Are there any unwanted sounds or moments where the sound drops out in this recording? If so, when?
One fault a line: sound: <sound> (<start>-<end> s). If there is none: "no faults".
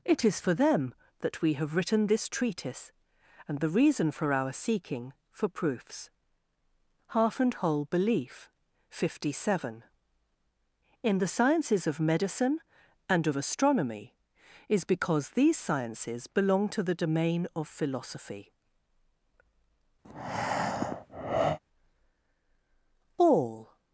sound: breath (20.0-21.6 s)